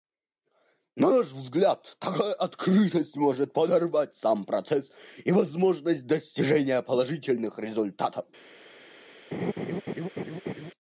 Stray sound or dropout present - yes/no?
yes